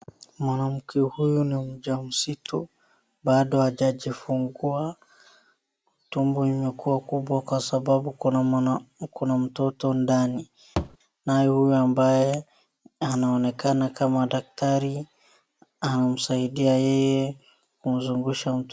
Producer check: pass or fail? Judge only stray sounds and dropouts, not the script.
fail